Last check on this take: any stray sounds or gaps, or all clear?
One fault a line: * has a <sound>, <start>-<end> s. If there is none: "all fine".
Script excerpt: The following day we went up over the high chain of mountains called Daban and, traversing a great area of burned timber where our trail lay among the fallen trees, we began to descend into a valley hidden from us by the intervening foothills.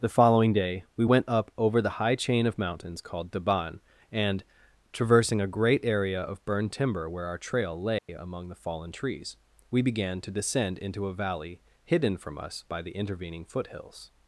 * has a dropout, 8.0-8.1 s